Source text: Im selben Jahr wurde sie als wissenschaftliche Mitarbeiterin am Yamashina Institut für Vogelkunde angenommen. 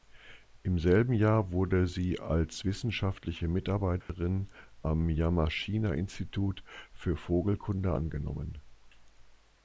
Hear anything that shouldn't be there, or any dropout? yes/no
yes